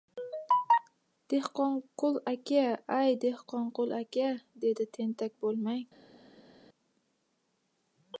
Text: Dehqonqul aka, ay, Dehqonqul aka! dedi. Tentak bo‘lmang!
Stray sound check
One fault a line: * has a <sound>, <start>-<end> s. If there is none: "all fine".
all fine